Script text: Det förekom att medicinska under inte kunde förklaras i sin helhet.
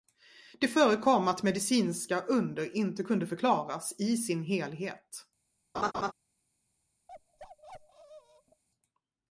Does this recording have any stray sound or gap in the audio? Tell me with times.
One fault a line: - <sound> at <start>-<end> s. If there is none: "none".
- laugh at 5.7-6.1 s
- bark at 7.1-8.6 s